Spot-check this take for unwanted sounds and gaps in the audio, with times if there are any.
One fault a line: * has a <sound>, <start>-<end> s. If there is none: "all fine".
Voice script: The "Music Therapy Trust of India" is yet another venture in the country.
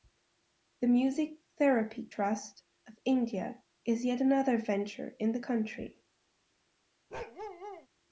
* has a bark, 7.1-7.9 s